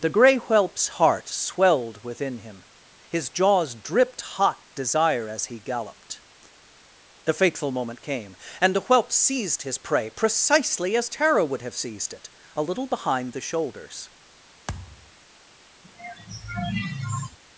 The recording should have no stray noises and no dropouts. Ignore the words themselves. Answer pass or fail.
fail